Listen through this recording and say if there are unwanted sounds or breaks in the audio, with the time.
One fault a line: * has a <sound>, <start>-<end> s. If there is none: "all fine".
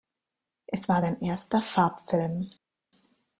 all fine